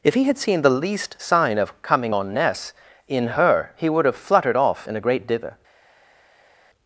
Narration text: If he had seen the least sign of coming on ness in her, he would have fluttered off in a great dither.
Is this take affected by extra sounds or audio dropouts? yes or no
no